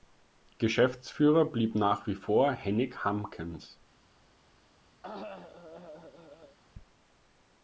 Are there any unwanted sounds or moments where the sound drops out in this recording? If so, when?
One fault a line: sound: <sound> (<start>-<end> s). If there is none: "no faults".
sound: cough (5.0-6.6 s)